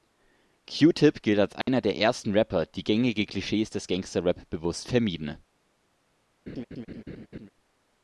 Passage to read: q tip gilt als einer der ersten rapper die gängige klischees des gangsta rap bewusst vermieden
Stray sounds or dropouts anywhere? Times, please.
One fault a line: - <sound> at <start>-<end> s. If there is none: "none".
- dropout at 1.6-1.7 s
- laugh at 6.5-7.5 s